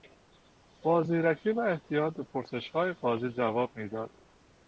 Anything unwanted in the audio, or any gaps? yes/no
no